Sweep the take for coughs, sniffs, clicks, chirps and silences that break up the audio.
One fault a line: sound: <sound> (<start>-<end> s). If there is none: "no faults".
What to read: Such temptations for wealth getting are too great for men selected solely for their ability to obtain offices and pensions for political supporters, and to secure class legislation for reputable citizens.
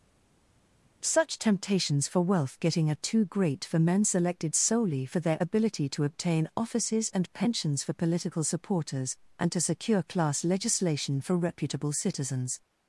no faults